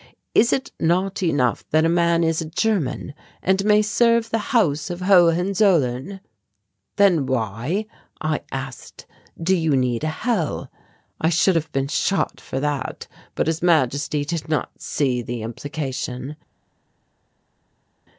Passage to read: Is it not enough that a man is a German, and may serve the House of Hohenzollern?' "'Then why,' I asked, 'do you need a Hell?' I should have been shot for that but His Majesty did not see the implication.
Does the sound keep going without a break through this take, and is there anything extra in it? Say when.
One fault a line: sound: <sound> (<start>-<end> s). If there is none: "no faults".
no faults